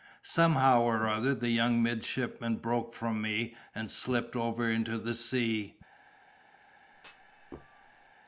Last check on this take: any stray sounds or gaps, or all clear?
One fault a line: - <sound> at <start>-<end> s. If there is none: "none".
- thud at 6.9-8.1 s